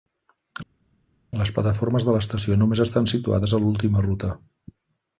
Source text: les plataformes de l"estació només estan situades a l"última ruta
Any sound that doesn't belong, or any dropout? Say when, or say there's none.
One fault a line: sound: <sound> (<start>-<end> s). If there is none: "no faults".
no faults